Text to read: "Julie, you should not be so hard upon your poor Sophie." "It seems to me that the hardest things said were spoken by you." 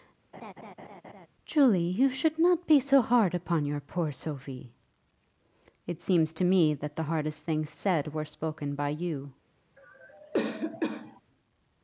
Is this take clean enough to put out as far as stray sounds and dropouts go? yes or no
no